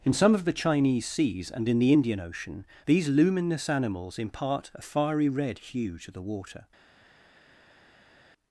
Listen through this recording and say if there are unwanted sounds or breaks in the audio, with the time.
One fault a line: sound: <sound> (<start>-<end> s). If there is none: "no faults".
no faults